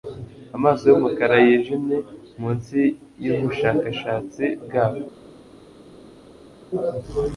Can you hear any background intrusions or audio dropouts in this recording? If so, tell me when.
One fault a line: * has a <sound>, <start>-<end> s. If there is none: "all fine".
all fine